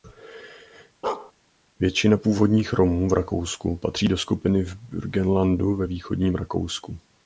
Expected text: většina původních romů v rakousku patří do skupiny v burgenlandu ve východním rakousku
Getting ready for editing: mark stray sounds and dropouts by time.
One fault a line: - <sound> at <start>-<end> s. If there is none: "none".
- bark at 1.0-1.3 s